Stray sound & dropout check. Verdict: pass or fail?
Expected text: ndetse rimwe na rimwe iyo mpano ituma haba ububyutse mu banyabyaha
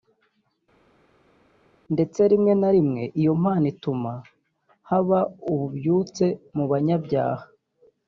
pass